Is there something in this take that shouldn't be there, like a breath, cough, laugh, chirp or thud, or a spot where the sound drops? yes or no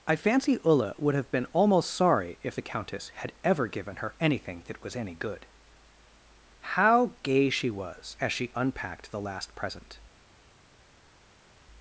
no